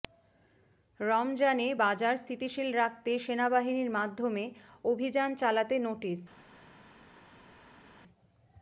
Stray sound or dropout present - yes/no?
no